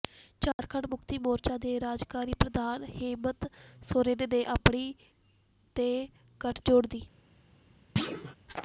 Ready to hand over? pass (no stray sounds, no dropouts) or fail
fail